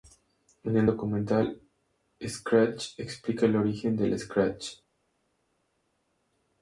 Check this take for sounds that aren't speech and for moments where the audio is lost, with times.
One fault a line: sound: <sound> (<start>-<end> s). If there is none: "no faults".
no faults